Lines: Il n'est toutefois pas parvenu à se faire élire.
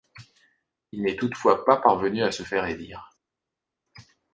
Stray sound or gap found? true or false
false